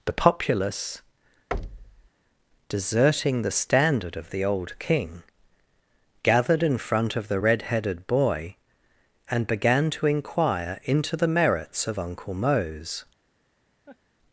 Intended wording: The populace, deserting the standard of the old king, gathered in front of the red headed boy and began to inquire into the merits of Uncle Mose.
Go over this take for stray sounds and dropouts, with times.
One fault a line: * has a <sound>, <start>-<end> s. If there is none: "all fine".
* has a thud, 1.5-2.1 s
* has a laugh, 13.9-14.0 s